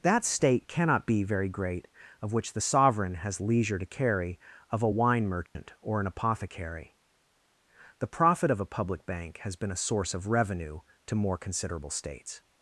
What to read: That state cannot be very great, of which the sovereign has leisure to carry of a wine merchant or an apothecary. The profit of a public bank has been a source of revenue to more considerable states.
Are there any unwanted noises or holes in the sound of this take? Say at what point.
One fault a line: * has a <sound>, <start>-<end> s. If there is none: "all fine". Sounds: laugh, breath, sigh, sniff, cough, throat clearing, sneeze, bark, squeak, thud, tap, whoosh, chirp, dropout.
* has a dropout, 5.5-5.6 s